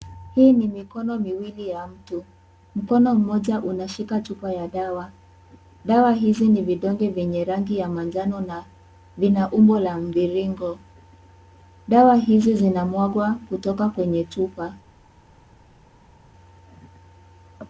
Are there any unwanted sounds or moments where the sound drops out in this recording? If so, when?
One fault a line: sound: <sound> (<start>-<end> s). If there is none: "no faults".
no faults